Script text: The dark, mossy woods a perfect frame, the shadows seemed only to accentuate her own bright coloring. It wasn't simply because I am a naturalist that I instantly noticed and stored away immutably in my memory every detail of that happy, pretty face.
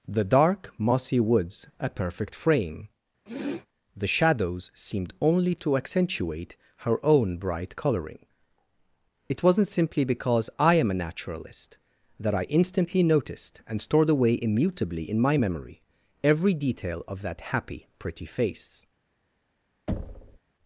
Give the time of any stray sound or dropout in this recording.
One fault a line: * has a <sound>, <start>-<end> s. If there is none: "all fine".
* has a sniff, 3.3-3.7 s
* has a thud, 19.9-20.4 s